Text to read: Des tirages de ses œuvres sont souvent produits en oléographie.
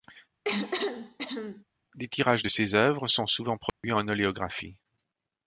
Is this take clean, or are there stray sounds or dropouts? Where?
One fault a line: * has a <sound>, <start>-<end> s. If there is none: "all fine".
* has a cough, 0.4-1.6 s
* has a dropout, 3.7-3.8 s